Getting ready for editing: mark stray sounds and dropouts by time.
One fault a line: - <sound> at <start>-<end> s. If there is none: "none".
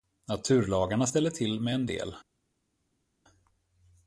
none